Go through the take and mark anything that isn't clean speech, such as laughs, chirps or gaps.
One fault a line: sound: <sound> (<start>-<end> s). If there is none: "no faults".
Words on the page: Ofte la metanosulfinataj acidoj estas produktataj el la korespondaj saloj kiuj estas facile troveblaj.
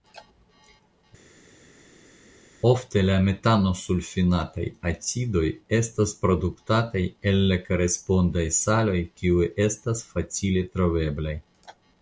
no faults